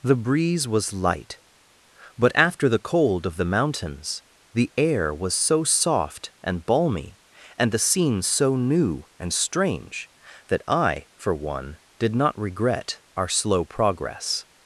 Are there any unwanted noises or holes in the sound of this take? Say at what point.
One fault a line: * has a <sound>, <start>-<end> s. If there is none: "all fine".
all fine